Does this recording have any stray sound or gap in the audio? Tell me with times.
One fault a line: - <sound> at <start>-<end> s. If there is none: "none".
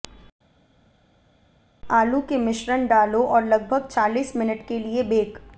none